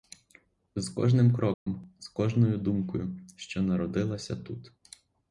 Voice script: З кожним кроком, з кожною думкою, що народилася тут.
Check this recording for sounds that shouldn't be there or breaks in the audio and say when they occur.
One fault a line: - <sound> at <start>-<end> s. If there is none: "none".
- dropout at 1.5-1.7 s